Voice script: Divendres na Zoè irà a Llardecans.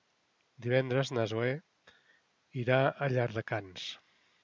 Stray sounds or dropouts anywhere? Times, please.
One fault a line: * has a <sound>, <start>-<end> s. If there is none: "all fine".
all fine